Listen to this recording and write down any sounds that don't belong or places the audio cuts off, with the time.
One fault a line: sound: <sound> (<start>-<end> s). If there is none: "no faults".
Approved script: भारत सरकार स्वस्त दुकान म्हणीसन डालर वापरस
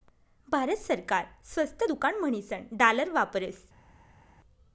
no faults